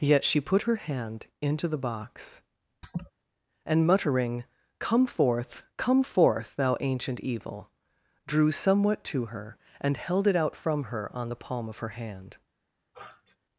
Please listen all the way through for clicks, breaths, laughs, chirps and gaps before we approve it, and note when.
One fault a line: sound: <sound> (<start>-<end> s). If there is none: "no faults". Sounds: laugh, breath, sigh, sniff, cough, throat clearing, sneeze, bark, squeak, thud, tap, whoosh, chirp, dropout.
sound: laugh (2.8-3.1 s)
sound: sniff (12.9-13.4 s)